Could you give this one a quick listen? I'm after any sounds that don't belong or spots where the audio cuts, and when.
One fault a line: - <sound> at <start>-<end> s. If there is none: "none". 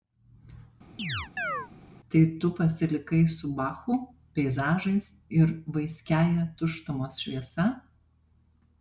- chirp at 1.0-1.7 s